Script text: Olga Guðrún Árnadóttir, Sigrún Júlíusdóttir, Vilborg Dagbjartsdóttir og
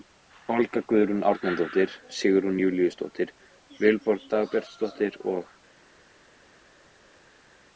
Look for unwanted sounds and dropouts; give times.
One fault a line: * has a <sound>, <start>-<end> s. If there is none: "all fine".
all fine